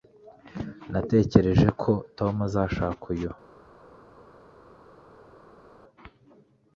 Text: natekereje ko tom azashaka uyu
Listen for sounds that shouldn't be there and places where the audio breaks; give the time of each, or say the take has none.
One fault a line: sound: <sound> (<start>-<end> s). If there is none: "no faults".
no faults